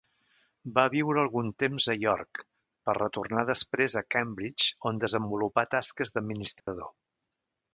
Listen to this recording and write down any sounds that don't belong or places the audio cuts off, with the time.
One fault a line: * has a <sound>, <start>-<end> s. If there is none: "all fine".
* has a dropout, 6.6-6.7 s